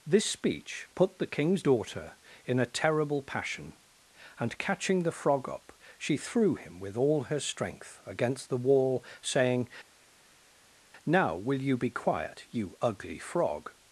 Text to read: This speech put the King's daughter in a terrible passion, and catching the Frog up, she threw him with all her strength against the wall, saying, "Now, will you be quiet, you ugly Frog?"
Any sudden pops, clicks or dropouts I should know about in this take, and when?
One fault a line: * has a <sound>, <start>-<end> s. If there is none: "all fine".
all fine